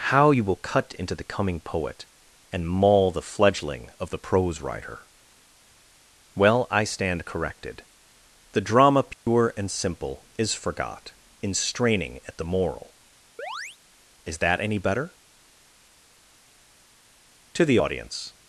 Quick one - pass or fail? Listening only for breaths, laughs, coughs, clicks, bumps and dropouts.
fail